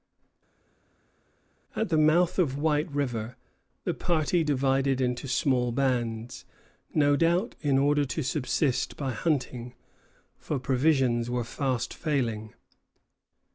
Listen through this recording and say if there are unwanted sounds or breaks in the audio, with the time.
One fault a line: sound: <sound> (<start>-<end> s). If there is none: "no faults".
no faults